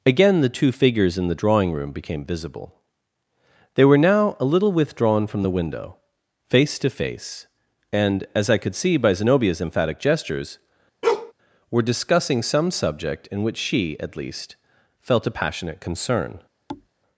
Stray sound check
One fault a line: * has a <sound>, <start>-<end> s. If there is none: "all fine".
* has a bark, 11.0-11.3 s
* has a thud, 16.7-16.9 s